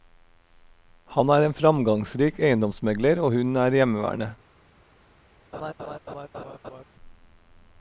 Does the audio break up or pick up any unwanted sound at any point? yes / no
yes